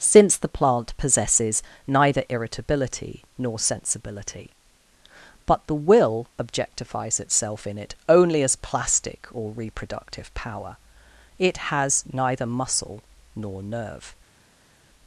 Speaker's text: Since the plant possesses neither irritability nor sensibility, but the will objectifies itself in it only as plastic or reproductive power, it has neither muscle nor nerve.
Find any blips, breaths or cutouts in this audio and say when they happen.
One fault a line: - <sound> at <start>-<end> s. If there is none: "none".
none